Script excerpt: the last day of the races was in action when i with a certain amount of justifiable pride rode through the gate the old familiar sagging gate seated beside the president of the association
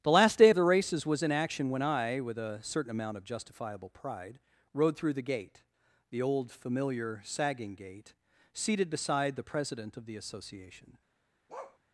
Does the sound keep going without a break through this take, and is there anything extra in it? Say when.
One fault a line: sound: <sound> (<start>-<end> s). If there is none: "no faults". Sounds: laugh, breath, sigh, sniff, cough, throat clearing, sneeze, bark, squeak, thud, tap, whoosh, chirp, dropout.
sound: bark (11.5-11.8 s)